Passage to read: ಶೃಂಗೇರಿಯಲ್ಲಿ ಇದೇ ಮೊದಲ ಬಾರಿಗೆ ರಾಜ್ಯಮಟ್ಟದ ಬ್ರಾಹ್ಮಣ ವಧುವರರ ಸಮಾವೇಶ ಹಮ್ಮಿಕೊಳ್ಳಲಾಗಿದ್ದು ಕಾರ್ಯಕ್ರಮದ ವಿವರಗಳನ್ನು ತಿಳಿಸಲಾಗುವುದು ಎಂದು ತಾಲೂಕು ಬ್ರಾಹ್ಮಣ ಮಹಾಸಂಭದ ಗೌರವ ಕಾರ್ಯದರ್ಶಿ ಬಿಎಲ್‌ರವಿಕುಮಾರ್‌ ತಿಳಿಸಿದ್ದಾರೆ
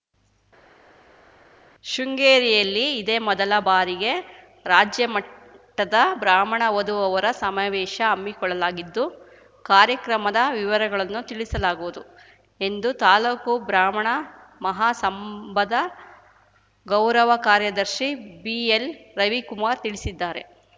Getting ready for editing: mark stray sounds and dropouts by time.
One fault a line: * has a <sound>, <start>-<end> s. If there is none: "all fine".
all fine